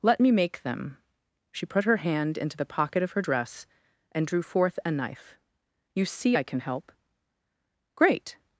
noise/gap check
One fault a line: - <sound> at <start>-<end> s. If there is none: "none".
none